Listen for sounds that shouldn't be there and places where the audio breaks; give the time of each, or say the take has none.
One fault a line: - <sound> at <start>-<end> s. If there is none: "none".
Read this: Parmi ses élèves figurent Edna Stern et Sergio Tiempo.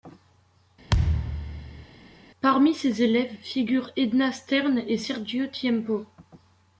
- thud at 0.9-1.9 s